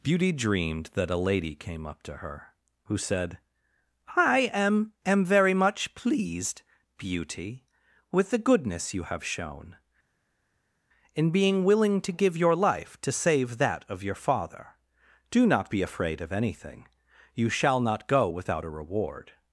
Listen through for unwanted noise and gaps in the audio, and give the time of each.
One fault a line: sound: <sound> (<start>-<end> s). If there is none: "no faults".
no faults